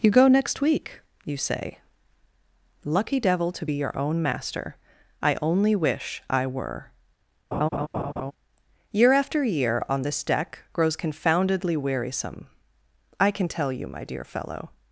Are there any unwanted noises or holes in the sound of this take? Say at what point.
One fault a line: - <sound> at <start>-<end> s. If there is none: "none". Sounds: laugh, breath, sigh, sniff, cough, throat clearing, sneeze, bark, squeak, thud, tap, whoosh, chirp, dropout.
- laugh at 7.5-8.3 s